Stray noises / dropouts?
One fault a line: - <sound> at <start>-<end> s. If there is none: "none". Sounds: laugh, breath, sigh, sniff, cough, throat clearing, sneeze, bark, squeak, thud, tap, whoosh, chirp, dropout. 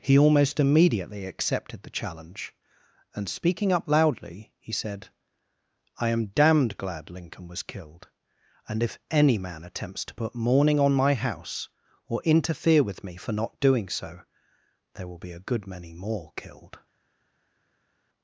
none